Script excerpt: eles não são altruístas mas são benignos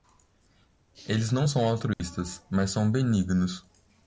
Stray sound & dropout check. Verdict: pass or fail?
fail